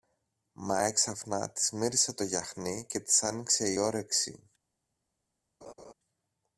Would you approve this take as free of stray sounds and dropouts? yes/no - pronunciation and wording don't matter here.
no